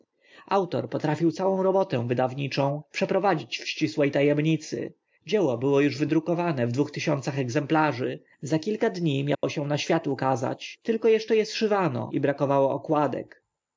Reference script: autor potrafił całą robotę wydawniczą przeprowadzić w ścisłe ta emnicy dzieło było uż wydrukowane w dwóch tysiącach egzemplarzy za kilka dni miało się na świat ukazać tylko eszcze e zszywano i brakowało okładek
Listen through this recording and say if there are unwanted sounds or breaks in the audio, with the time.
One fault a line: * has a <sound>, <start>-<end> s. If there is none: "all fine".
* has a dropout, 9.3-9.4 s